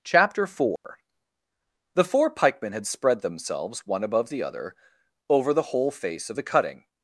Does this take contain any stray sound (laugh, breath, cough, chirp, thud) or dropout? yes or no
yes